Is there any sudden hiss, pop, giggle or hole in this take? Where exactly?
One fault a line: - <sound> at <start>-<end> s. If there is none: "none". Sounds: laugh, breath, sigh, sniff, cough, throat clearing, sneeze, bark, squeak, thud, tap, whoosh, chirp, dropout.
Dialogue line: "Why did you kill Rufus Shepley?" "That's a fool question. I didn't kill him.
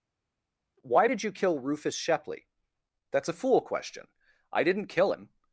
none